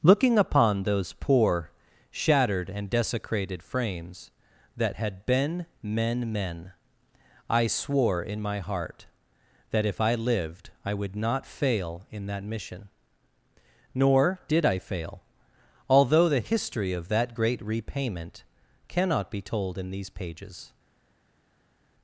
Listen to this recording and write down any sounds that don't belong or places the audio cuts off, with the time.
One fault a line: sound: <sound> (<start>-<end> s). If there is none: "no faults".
no faults